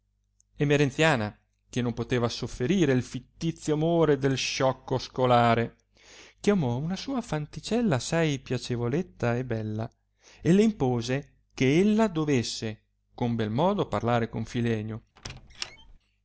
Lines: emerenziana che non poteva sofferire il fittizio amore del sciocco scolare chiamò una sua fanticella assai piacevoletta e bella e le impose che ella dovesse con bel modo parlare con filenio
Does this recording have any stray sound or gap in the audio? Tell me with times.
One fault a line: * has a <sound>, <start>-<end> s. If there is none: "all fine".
* has a squeak, 15.2-16.0 s